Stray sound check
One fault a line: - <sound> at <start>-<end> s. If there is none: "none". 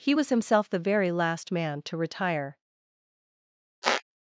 - squeak at 3.8-4.0 s